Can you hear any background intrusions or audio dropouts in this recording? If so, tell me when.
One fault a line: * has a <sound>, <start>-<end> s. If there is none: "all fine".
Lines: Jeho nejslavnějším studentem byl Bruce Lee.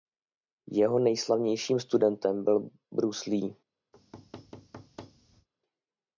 * has a thud, 3.9-5.5 s